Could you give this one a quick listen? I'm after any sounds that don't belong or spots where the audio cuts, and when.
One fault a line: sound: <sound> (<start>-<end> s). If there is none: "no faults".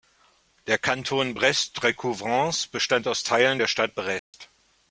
sound: dropout (4.2-4.3 s)